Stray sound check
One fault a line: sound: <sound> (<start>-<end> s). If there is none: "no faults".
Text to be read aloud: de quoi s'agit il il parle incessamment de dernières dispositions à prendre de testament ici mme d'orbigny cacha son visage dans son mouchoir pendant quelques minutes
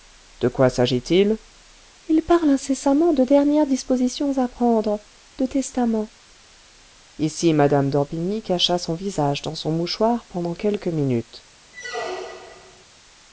sound: squeak (11.7-12.8 s)